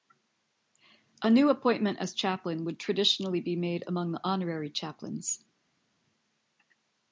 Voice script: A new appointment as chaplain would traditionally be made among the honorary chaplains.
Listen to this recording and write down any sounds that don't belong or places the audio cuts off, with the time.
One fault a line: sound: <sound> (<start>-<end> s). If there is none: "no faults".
no faults